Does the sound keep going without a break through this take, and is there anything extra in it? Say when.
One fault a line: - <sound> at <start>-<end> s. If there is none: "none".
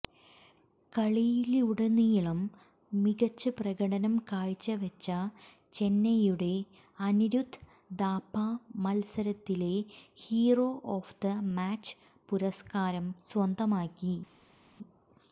none